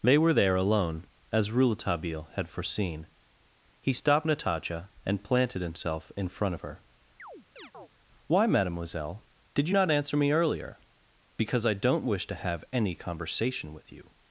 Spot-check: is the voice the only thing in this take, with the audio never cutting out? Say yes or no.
no